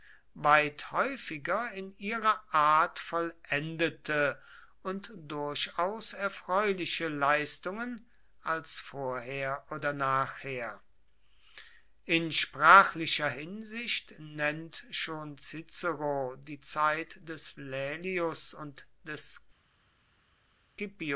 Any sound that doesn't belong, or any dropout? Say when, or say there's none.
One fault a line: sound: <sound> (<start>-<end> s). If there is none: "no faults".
no faults